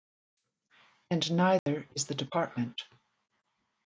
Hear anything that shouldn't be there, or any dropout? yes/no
yes